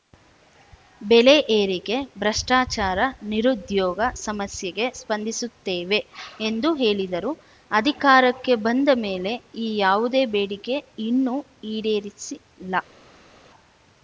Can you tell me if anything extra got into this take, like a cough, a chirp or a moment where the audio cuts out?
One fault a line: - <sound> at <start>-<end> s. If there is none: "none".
none